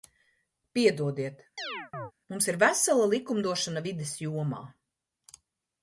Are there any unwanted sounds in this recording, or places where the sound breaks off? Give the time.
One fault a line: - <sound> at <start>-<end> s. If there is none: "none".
- chirp at 1.6-2.1 s